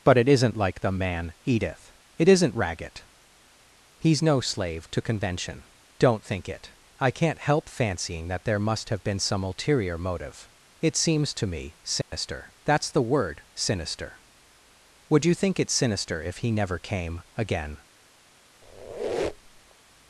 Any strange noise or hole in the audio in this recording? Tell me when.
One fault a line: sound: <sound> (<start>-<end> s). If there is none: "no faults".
sound: dropout (12.0-12.1 s)
sound: squeak (18.6-19.7 s)